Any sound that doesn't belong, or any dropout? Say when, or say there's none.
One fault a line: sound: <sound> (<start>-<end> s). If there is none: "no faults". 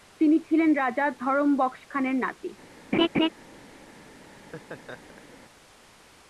sound: laugh (2.9-3.3 s)
sound: laugh (4.3-5.4 s)